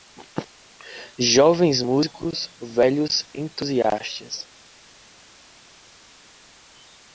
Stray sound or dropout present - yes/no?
no